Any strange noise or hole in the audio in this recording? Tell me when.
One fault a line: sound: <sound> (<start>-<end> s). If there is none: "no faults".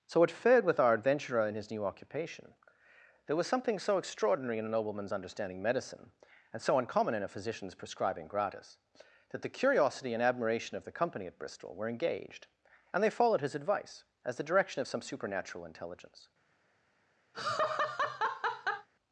sound: laugh (17.3-18.9 s)